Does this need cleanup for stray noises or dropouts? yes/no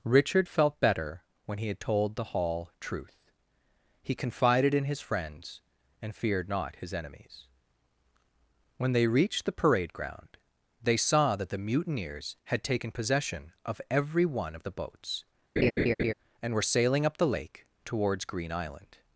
yes